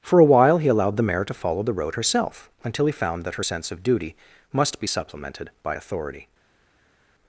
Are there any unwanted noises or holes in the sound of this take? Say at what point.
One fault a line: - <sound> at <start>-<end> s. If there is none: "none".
none